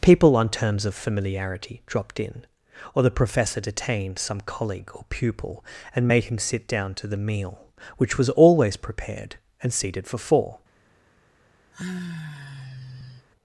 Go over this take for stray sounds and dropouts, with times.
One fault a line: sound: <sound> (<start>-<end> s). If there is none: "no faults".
sound: sigh (11.7-13.3 s)